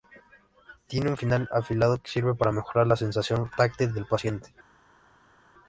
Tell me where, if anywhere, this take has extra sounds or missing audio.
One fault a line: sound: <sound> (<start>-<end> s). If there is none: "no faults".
no faults